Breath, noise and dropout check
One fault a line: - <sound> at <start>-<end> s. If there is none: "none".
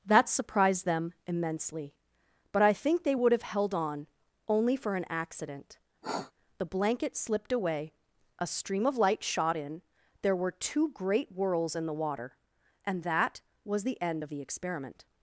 - sniff at 6.0-6.3 s